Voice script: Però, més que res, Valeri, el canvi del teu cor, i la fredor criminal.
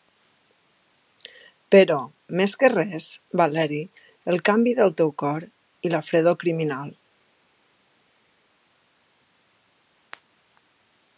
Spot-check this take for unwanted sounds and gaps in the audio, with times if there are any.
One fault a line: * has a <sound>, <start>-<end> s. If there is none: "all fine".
all fine